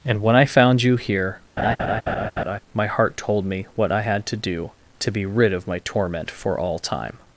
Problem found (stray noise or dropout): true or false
true